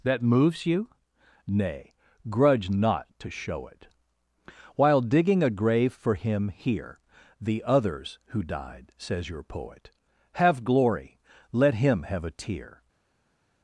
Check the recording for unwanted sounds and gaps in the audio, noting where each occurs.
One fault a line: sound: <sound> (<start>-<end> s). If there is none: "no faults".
no faults